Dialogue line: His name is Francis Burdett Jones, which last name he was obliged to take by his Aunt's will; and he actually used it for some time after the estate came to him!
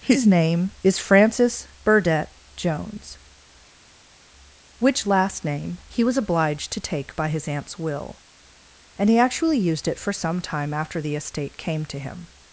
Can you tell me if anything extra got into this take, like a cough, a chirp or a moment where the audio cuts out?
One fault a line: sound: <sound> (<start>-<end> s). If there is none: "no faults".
no faults